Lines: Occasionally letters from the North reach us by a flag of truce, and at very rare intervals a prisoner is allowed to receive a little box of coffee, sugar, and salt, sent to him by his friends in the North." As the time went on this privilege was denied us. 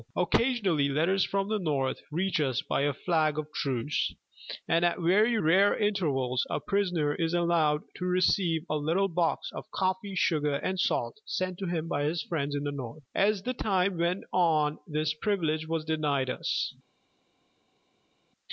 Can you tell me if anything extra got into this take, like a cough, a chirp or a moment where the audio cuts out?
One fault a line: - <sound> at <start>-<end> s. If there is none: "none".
none